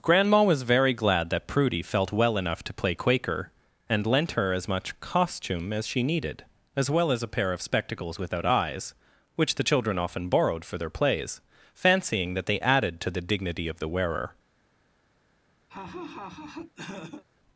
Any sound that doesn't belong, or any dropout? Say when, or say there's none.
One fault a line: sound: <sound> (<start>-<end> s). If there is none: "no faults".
sound: laugh (15.7-17.2 s)